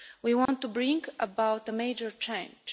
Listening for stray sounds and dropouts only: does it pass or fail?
fail